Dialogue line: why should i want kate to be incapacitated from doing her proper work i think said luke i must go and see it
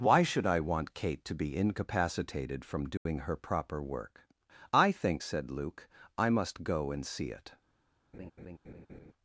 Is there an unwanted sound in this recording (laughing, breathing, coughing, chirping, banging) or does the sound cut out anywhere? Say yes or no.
yes